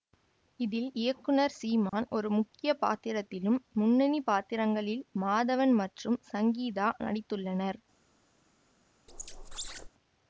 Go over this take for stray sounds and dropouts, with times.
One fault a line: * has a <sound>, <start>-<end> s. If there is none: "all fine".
* has a dropout, 1.9-1.9 s
* has a squeak, 9.1-9.9 s